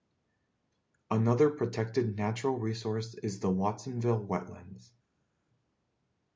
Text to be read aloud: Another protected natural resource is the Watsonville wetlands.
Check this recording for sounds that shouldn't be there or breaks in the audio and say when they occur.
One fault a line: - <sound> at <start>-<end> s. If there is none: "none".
none